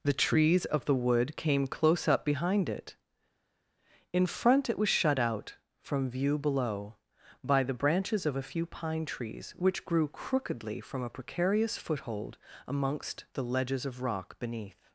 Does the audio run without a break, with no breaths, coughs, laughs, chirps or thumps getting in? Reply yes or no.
yes